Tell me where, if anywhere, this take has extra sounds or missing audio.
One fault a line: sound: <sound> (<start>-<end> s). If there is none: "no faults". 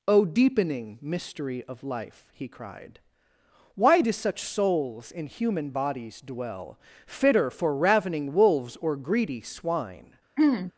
sound: throat clearing (10.4-10.7 s)